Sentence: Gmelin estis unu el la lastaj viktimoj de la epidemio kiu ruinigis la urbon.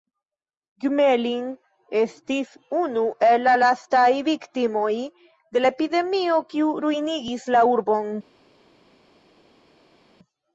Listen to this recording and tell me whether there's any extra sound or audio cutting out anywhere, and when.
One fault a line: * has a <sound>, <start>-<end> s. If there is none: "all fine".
all fine